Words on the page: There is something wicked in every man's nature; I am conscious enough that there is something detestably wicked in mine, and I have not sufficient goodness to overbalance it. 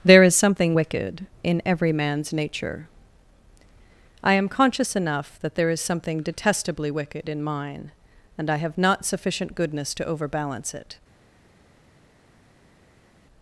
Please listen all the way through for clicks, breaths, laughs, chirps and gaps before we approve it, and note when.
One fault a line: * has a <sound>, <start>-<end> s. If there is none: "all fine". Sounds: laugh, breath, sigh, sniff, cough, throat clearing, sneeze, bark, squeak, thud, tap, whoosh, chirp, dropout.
all fine